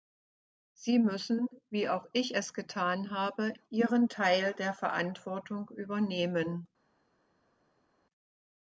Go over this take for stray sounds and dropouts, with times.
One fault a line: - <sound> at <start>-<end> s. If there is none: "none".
none